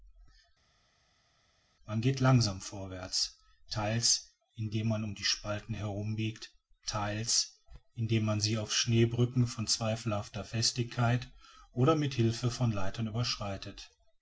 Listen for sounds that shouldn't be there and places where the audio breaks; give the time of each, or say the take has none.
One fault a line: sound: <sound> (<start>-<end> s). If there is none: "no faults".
no faults